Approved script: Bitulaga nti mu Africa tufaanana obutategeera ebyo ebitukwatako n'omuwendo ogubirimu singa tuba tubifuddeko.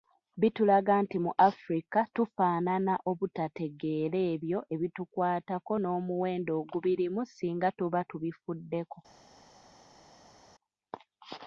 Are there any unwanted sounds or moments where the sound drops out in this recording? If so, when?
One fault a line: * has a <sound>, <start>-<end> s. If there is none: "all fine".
all fine